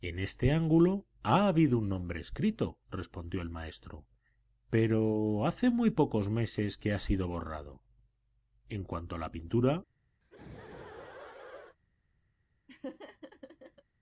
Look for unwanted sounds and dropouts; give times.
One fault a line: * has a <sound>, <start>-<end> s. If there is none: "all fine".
* has a laugh, 10.2-11.8 s
* has a laugh, 12.7-13.8 s